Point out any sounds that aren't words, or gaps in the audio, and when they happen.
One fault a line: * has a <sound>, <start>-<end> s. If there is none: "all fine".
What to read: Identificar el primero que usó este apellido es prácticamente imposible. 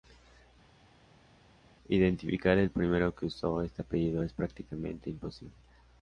all fine